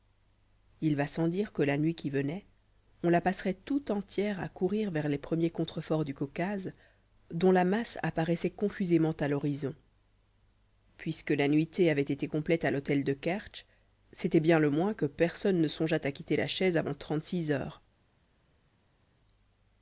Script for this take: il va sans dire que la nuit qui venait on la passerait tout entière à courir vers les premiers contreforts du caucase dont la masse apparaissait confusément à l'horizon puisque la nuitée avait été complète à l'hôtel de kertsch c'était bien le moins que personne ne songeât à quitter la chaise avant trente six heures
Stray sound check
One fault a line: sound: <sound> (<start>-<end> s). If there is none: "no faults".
no faults